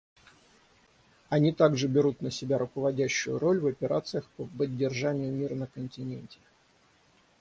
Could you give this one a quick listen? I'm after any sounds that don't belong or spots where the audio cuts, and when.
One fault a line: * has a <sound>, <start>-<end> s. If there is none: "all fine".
all fine